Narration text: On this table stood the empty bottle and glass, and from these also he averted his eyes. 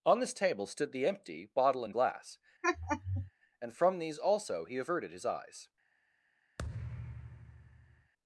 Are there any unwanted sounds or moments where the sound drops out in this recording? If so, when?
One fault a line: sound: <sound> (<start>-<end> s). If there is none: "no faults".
sound: laugh (2.6-3.3 s)
sound: thud (6.6-8.1 s)